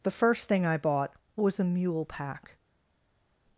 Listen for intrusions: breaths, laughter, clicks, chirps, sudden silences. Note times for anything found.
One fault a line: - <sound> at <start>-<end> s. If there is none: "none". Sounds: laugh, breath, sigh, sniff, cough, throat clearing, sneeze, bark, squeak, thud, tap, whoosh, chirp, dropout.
none